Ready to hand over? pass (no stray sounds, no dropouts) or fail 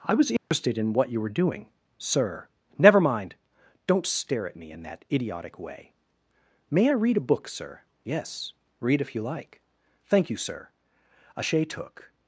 fail